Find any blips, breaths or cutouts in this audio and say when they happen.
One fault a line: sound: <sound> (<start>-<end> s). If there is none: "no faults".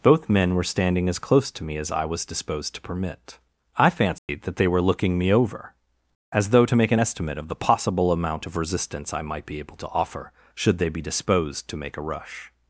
sound: dropout (4.2-4.3 s)